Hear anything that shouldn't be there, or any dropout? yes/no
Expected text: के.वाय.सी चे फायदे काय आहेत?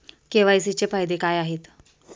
no